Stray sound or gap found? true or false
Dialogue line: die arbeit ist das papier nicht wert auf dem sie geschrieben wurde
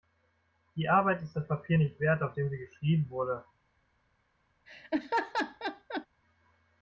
true